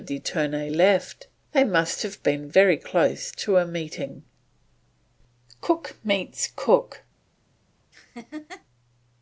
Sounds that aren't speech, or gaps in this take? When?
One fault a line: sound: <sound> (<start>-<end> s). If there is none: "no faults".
sound: laugh (7.9-8.6 s)